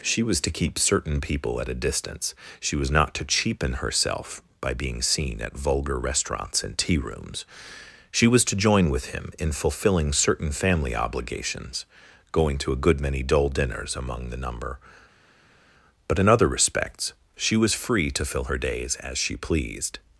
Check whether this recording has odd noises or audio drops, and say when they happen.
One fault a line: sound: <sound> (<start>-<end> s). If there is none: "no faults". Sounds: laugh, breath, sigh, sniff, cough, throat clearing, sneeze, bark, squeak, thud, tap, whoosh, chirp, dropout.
no faults